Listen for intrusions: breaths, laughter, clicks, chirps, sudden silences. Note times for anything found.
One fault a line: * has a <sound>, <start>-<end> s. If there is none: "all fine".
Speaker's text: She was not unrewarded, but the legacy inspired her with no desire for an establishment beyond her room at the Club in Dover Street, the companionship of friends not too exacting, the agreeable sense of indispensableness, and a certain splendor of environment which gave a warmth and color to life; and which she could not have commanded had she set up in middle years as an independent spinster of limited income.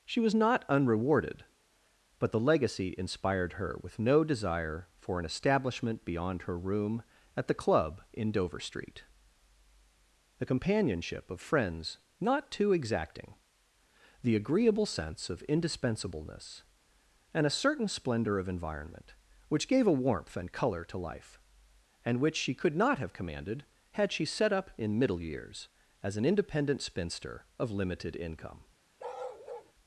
* has a bark, 29.0-29.7 s